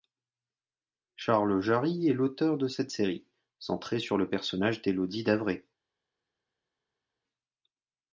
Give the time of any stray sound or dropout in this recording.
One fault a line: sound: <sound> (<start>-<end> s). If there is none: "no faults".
no faults